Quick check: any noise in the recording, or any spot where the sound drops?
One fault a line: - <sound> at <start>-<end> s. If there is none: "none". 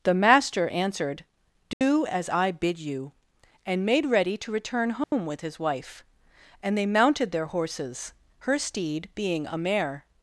- dropout at 1.7-1.8 s
- dropout at 5.0-5.1 s